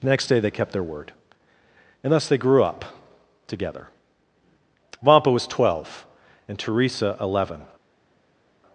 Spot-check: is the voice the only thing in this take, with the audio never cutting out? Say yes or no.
yes